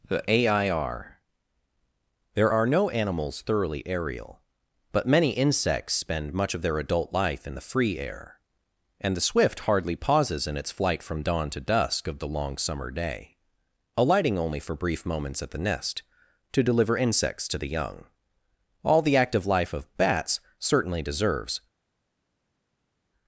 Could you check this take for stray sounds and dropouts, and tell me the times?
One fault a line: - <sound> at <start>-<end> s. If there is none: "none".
none